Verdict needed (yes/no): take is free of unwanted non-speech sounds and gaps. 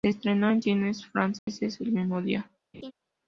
no